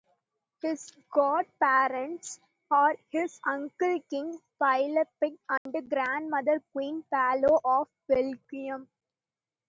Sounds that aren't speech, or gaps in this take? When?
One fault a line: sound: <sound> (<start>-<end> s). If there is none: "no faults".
sound: dropout (5.6-5.7 s)